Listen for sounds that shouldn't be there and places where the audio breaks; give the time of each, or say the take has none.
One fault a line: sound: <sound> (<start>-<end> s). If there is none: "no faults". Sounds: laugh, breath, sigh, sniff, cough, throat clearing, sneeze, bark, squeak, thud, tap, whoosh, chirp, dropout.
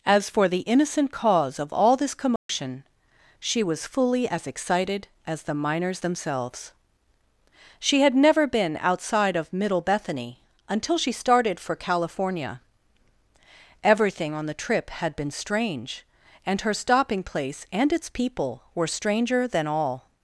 sound: dropout (2.4-2.5 s)